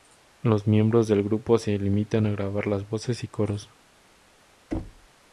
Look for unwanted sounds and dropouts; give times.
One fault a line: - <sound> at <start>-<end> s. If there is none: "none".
- thud at 4.7-5.1 s